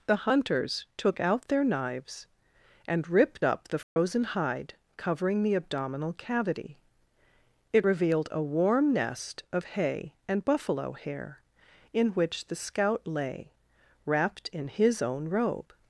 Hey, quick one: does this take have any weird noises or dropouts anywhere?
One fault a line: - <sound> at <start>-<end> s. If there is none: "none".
- dropout at 3.8-4.0 s